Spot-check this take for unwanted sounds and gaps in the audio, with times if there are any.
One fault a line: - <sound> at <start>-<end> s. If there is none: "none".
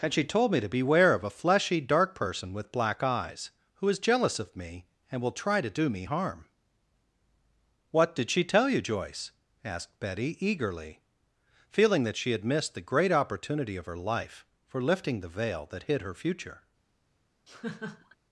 - laugh at 17.5-18.2 s